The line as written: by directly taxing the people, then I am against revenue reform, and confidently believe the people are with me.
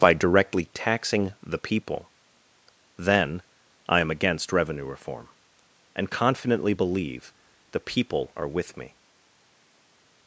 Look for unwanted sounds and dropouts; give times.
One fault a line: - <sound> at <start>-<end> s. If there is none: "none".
none